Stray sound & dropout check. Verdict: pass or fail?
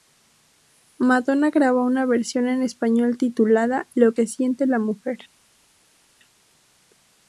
pass